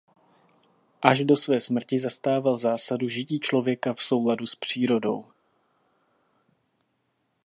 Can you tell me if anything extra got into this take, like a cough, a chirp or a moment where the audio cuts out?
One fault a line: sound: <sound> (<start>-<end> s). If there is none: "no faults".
no faults